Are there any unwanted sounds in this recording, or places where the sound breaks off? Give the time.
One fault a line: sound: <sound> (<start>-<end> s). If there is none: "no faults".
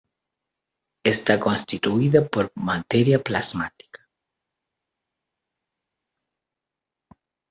no faults